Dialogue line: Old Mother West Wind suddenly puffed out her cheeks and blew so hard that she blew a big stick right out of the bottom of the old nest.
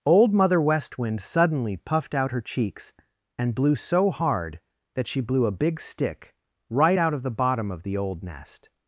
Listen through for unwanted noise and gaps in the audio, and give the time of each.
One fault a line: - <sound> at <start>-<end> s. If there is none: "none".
none